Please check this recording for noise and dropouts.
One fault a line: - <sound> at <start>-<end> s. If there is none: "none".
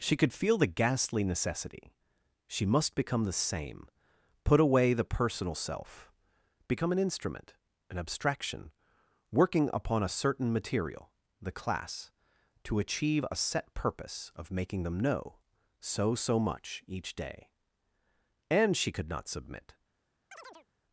- chirp at 20.3-20.7 s